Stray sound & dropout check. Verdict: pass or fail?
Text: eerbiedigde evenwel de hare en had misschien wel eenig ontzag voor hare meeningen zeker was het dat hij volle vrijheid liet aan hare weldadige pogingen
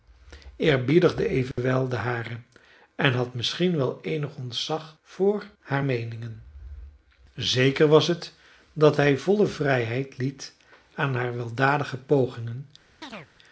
fail